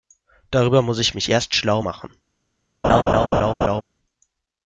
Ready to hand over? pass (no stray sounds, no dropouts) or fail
fail